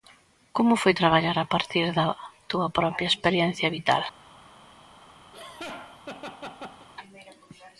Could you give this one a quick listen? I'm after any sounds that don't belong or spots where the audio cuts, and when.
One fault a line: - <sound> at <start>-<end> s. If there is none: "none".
- laugh at 5.3-6.9 s